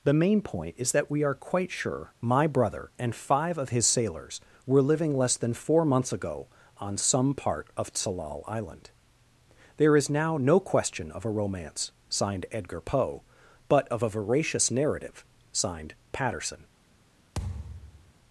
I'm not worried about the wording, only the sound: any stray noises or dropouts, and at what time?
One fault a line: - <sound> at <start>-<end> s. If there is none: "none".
- thud at 17.4-18.1 s